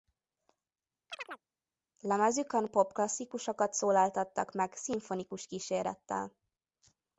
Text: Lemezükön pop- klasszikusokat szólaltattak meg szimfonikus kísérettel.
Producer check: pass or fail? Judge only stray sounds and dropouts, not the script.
fail